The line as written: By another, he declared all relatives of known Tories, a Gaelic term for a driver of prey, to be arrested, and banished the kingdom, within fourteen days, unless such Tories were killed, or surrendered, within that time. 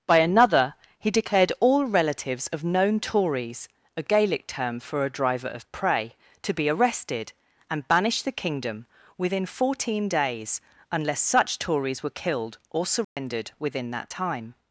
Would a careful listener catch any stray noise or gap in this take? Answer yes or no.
yes